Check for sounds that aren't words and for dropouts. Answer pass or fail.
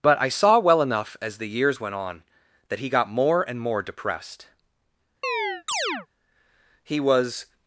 fail